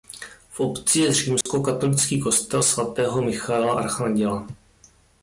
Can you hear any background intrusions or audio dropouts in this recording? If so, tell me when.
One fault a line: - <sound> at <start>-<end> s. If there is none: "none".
- dropout at 1.4-1.5 s